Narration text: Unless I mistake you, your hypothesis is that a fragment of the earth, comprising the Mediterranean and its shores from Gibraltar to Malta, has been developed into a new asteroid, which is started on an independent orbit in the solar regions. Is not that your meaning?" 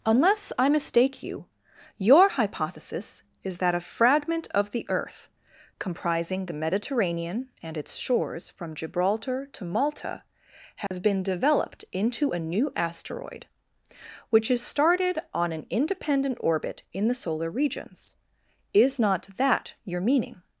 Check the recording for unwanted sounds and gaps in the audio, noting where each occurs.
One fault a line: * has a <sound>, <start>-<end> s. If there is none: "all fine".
* has a dropout, 10.9-10.9 s